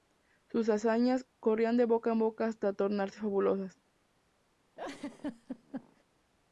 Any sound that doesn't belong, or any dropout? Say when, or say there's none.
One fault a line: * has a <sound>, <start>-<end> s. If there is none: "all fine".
* has a laugh, 4.8-6.0 s